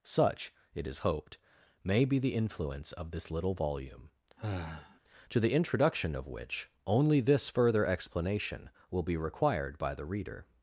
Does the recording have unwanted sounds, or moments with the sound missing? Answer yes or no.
yes